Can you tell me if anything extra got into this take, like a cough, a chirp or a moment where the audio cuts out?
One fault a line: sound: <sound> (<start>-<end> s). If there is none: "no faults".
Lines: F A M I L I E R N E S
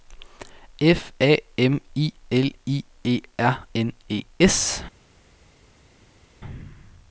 no faults